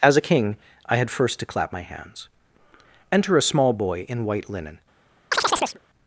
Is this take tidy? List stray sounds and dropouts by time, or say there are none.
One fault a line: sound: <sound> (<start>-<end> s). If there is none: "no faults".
sound: chirp (5.3-5.8 s)